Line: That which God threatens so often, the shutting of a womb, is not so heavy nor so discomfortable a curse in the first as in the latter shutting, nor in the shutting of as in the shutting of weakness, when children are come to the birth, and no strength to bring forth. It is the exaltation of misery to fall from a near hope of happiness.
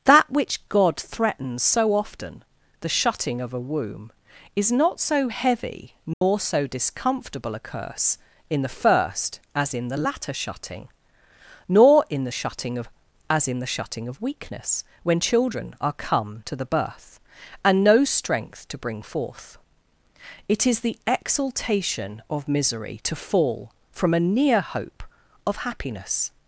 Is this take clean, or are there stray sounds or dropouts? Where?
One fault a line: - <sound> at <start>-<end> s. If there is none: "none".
- dropout at 6.1-6.2 s